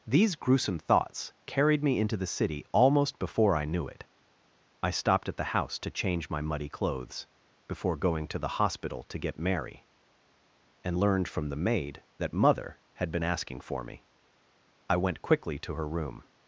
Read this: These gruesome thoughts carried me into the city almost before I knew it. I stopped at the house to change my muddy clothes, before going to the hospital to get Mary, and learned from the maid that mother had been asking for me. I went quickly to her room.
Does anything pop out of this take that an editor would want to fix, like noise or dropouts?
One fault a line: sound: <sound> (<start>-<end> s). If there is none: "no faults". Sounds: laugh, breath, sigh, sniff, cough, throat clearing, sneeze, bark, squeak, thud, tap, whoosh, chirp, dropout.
no faults